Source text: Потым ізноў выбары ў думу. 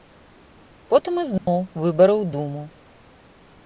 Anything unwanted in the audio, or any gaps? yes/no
yes